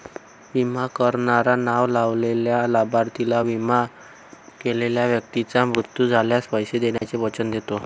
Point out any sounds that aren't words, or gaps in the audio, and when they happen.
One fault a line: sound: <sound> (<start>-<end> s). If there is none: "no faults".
sound: dropout (7.0-7.0 s)